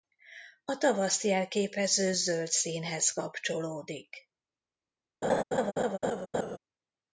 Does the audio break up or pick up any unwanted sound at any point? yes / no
yes